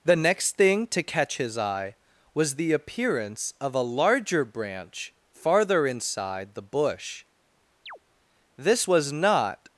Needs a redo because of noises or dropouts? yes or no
yes